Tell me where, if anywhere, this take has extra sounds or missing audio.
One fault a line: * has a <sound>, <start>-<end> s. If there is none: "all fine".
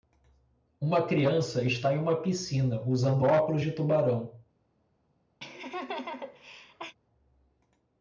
* has a laugh, 5.4-7.0 s